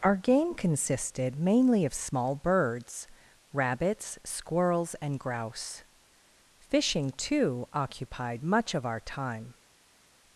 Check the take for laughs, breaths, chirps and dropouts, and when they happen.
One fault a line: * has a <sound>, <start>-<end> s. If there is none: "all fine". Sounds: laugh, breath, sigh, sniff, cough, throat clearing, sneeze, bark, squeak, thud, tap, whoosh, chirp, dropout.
all fine